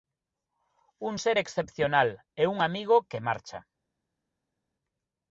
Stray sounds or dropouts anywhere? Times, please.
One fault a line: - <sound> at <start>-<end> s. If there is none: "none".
none